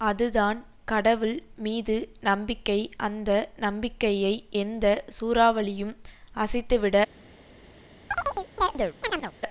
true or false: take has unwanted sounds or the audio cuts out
true